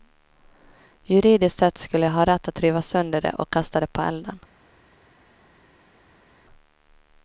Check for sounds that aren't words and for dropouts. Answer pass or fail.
pass